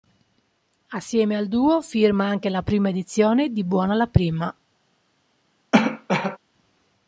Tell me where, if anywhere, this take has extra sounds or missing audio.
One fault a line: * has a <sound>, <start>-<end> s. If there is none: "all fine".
* has a cough, 5.7-6.4 s